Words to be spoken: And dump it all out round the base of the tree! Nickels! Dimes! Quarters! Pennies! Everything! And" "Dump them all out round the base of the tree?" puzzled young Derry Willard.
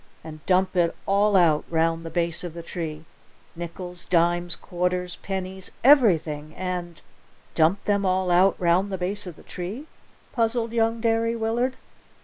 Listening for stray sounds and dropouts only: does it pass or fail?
pass